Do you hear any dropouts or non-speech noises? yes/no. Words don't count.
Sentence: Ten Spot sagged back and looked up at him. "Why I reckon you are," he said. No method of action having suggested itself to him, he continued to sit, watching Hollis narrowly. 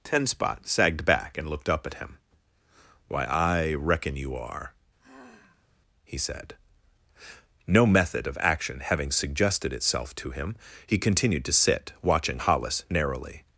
yes